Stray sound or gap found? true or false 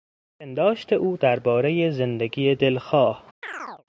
true